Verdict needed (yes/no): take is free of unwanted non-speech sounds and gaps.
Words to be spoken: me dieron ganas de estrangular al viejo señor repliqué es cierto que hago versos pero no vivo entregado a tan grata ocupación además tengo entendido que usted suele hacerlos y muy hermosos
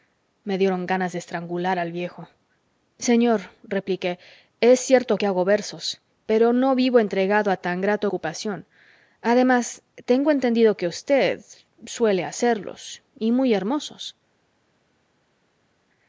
yes